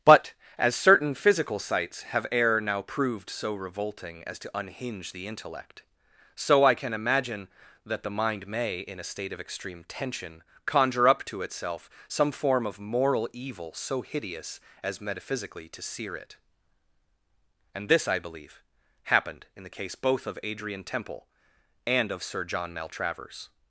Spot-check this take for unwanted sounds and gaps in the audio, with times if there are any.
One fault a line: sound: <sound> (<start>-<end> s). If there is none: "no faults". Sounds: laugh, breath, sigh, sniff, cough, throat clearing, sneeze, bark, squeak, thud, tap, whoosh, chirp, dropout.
no faults